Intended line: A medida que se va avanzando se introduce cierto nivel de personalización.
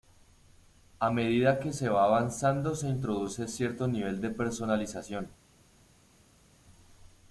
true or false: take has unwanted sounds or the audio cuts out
false